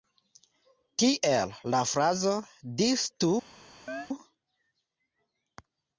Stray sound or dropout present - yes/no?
yes